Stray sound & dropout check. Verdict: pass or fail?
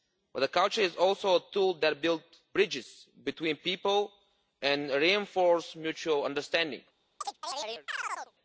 fail